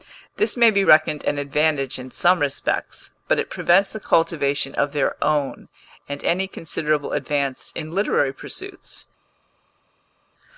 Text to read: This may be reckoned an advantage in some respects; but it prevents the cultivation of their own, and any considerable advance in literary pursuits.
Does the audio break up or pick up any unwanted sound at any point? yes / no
no